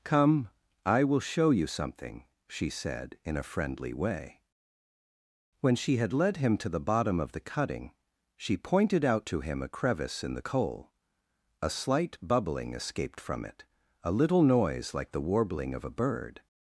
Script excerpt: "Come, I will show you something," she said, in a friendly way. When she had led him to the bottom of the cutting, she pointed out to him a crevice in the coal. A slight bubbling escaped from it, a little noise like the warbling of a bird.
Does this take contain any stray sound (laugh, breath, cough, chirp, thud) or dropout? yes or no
no